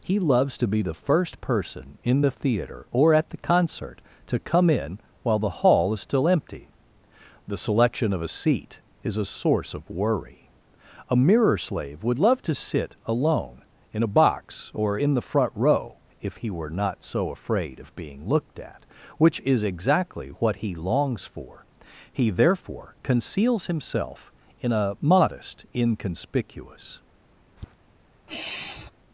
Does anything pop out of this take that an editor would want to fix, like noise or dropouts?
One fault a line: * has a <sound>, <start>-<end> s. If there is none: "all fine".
* has a tap, 27.6-27.7 s
* has a sigh, 28.3-28.9 s